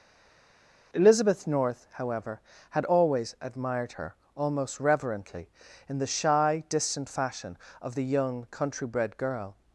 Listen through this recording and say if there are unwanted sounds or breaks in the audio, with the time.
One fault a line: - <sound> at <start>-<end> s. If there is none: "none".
none